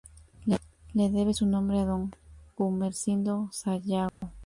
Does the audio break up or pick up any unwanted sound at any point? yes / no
yes